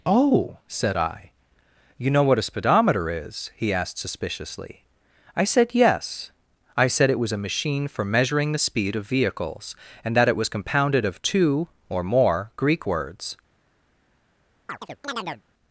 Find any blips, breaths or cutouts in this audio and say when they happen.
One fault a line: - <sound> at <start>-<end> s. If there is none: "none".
- chirp at 14.7-15.4 s